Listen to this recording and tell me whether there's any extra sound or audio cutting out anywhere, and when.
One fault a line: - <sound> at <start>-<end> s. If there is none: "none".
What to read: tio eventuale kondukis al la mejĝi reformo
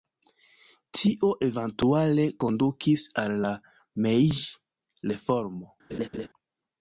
- laugh at 5.9-6.3 s